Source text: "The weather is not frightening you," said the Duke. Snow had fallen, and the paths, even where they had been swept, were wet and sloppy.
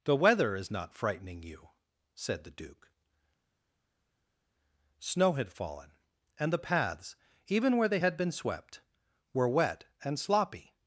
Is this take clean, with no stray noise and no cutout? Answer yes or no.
yes